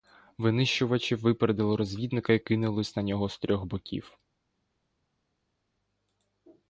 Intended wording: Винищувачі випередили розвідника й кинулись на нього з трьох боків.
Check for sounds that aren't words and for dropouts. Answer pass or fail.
pass